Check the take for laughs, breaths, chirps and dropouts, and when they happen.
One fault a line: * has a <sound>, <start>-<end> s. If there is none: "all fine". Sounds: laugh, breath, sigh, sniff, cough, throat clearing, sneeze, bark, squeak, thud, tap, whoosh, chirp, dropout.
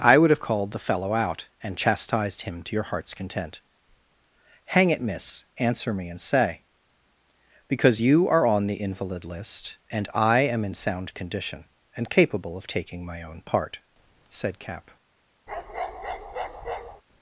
* has a bark, 15.5-17.0 s